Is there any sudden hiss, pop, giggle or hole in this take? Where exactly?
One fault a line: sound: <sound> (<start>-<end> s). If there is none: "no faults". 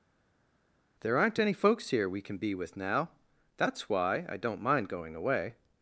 no faults